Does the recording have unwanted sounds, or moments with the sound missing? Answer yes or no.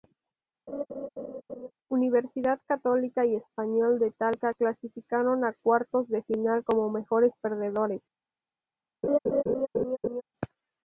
yes